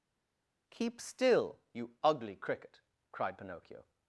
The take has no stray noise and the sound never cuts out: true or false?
true